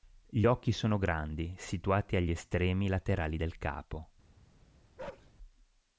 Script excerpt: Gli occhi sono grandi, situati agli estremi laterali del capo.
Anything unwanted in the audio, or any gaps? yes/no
yes